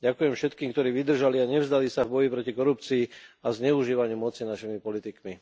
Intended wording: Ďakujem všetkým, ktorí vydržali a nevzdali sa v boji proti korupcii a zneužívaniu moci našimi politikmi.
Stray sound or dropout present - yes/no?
no